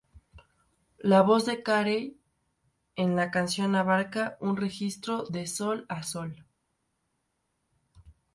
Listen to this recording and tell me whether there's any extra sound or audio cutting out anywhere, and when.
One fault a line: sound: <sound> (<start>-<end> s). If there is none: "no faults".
no faults